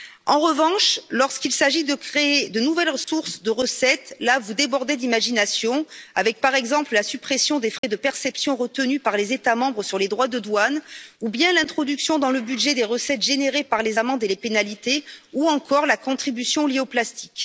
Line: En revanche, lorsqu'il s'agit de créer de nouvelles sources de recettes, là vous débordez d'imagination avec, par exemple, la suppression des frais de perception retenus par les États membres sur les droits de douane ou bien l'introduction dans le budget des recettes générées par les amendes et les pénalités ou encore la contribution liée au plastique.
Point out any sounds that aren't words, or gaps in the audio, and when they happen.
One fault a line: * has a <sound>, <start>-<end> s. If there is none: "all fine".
* has a dropout, 3.0-3.1 s
* has a dropout, 7.8-7.8 s